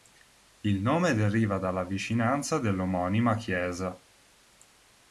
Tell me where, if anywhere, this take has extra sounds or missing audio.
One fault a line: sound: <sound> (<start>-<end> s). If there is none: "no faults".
no faults